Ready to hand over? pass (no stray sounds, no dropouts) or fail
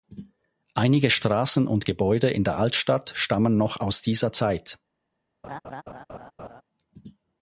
fail